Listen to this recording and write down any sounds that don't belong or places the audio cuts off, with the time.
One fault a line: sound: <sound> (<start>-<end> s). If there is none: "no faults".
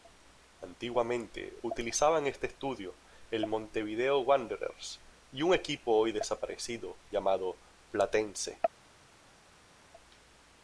no faults